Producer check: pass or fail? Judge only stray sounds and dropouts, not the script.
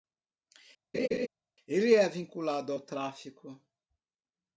fail